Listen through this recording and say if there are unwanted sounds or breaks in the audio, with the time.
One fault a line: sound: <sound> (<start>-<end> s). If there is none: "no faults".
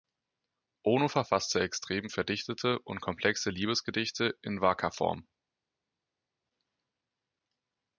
no faults